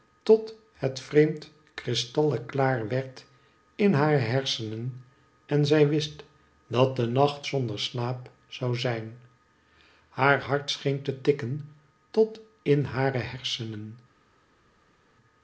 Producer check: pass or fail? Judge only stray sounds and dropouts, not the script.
pass